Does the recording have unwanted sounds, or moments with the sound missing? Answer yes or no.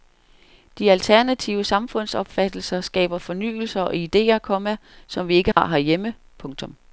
yes